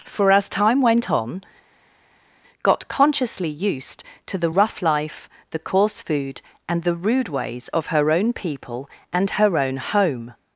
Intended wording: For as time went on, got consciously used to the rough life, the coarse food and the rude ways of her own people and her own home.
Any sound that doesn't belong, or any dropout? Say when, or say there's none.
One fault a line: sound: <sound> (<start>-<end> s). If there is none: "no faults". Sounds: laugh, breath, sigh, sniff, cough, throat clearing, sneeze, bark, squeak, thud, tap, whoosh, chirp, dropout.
no faults